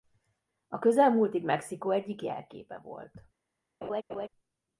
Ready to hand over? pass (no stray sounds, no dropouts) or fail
fail